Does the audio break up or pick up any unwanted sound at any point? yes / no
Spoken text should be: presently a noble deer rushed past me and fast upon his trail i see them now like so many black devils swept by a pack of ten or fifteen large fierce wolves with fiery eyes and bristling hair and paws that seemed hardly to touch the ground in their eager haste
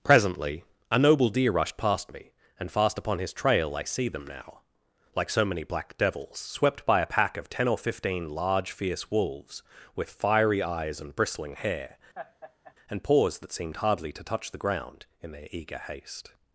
yes